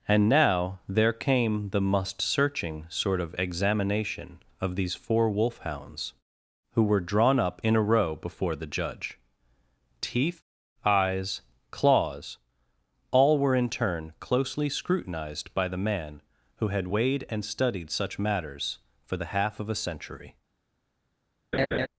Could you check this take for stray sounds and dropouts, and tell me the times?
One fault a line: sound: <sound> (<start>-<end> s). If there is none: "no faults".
sound: laugh (21.5-21.9 s)